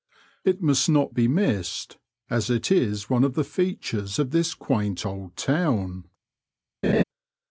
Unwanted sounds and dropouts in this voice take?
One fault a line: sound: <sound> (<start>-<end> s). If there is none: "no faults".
sound: laugh (6.8-7.0 s)